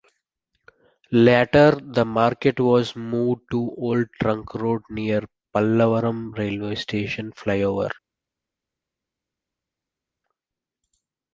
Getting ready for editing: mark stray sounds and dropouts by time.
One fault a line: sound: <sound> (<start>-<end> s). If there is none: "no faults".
no faults